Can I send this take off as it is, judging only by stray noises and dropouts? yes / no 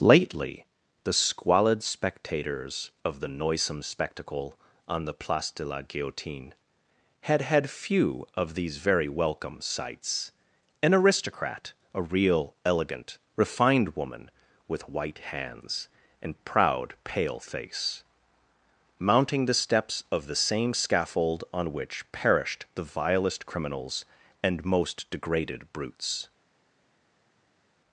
yes